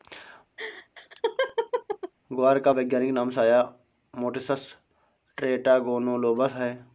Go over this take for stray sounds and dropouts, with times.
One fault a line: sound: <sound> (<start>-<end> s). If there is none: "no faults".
sound: laugh (0.6-2.1 s)